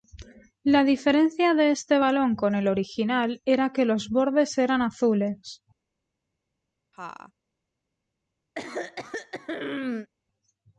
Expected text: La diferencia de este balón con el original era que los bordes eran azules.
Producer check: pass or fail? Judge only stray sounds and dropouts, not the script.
fail